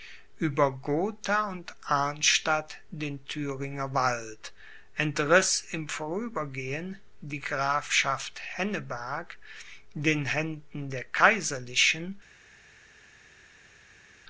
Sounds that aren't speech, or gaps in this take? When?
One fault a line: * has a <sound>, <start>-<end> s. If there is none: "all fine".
all fine